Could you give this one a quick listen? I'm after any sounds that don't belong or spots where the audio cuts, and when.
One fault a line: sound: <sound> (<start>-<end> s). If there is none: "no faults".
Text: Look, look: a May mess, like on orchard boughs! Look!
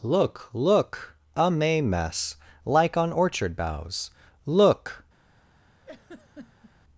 sound: laugh (5.8-6.7 s)